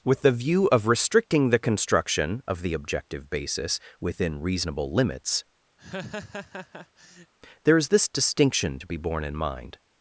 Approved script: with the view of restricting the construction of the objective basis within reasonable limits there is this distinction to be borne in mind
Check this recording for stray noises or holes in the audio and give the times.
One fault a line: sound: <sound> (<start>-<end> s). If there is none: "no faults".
sound: laugh (5.8-7.3 s)